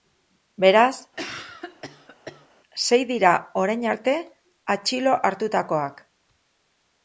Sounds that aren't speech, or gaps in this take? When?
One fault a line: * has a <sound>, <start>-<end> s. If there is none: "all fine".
* has a cough, 1.2-2.5 s